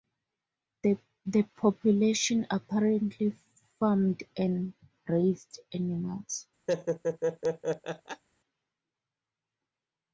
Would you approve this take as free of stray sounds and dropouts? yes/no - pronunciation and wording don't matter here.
no